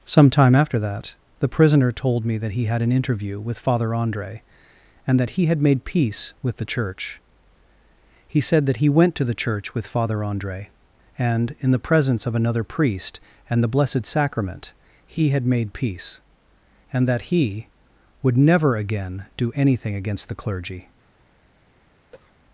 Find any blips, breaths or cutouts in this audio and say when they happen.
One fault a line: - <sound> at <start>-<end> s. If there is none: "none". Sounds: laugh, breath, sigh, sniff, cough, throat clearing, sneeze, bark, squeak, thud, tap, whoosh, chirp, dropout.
- cough at 22.1-22.4 s